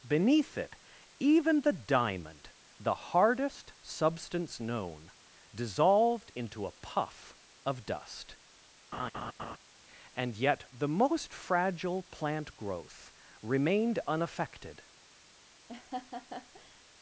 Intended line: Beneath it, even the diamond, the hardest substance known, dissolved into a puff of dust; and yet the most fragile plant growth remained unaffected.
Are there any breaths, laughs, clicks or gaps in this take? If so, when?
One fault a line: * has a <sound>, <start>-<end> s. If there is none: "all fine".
* has a laugh, 8.9-9.6 s
* has a laugh, 15.7-16.8 s